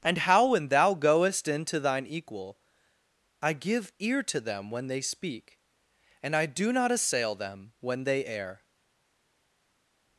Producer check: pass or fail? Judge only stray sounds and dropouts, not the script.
pass